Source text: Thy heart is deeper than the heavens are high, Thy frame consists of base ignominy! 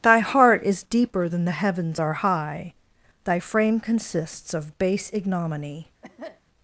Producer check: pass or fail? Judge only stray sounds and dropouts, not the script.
fail